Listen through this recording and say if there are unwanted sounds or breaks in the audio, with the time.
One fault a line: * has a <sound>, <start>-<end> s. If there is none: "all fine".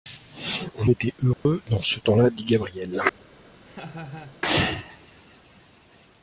* has a dropout, 1.3-1.5 s
* has a laugh, 3.6-4.4 s